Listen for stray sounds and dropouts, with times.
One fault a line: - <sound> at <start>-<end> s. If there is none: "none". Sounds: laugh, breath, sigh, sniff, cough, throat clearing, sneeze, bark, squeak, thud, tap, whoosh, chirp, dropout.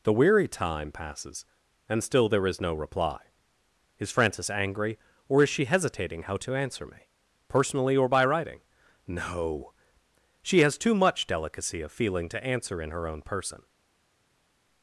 none